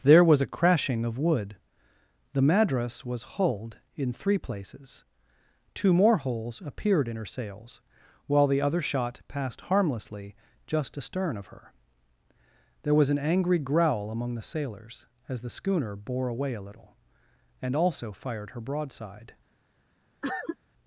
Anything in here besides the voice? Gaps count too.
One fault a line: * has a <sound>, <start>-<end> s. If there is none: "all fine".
* has a cough, 20.2-20.6 s